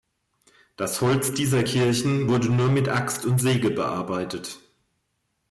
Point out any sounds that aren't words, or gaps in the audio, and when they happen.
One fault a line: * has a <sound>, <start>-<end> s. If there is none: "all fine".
all fine